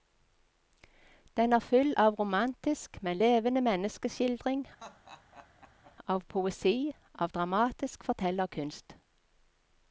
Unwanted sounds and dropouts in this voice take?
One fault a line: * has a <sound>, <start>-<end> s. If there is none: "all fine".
* has a laugh, 4.8-6.0 s